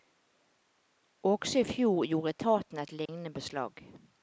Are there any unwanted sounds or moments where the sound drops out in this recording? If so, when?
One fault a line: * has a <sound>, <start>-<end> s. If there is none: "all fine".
* has a dropout, 3.1-3.1 s